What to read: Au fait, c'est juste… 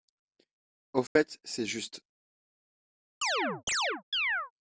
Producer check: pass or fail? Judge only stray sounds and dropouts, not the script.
fail